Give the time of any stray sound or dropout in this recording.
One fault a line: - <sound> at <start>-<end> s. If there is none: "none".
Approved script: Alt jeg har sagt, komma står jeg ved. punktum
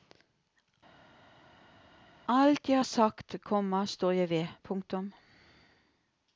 none